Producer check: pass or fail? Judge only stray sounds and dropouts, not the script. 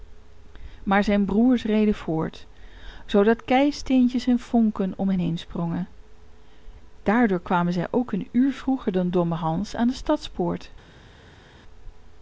pass